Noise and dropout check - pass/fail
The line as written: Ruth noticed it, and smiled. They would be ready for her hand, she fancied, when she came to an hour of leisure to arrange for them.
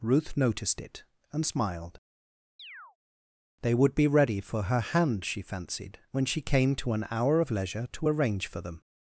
fail